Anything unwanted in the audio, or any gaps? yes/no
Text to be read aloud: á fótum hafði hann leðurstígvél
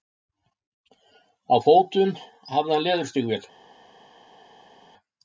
no